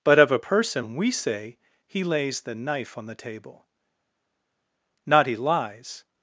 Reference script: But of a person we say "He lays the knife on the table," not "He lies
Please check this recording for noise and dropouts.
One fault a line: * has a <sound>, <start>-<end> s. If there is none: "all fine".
all fine